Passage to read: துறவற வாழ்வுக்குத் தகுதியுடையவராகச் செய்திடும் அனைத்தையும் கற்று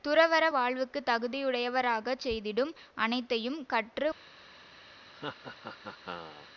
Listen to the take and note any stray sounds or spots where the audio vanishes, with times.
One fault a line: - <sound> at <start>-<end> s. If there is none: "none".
- laugh at 5.1-6.5 s